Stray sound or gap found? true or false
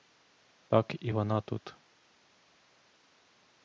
false